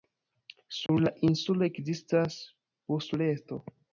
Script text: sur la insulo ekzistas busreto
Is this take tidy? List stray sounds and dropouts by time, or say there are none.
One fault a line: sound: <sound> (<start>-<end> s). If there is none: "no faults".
sound: dropout (0.9-0.9 s)